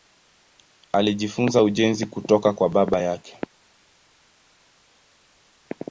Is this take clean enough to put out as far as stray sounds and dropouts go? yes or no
yes